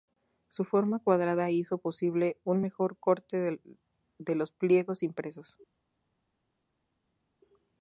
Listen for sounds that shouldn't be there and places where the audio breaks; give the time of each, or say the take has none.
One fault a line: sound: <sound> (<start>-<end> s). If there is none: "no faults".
no faults